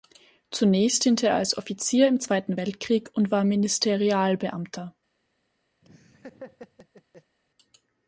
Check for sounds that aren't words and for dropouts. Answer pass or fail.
fail